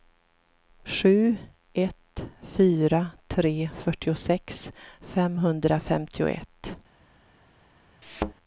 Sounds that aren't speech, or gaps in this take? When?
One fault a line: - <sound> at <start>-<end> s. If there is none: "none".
- thud at 8.0-8.3 s